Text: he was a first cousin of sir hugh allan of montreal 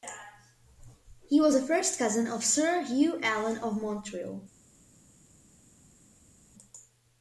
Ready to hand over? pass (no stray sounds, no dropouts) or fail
pass